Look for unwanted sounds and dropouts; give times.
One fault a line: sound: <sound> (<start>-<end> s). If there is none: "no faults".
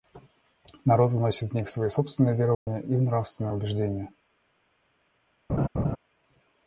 sound: dropout (2.5-2.7 s)
sound: laugh (5.5-6.0 s)